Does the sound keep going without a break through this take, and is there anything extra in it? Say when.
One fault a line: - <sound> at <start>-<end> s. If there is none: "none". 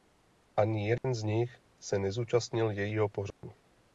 - dropout at 1.0-1.0 s
- dropout at 3.3-3.4 s